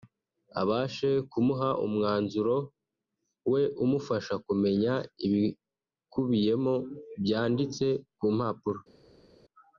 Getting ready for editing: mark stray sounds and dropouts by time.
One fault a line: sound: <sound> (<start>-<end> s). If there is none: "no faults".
no faults